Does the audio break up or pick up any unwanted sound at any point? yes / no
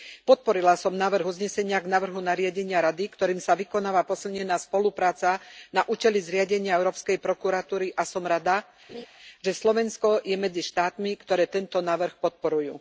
yes